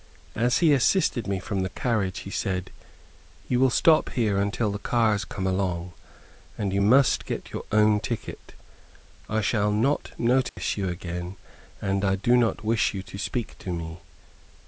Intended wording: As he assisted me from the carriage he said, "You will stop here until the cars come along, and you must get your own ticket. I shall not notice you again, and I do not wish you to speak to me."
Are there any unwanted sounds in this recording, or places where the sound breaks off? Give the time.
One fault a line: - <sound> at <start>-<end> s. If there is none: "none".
- dropout at 10.5-10.6 s